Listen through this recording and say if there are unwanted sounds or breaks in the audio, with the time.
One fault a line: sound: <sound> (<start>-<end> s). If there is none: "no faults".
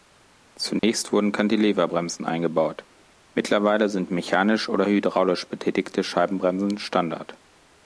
sound: dropout (0.8-0.8 s)